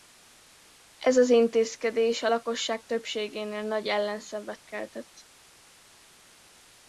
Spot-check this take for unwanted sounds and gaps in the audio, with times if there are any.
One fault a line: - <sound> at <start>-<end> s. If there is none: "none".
none